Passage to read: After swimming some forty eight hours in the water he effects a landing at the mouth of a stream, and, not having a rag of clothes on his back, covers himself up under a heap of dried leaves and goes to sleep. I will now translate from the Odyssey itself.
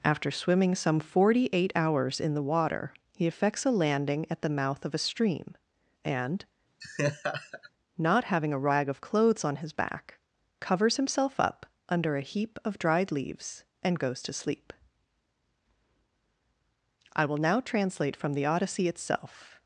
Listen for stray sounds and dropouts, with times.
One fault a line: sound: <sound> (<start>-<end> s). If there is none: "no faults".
sound: laugh (6.8-7.7 s)